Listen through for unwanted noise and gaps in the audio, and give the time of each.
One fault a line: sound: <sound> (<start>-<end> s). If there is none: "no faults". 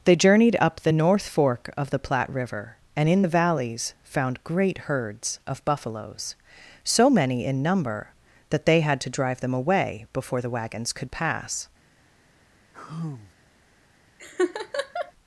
sound: sigh (12.7-13.3 s)
sound: laugh (14.2-15.1 s)